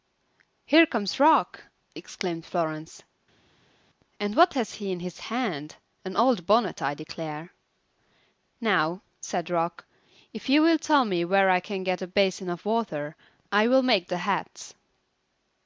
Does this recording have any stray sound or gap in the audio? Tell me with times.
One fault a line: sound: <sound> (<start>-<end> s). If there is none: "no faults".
no faults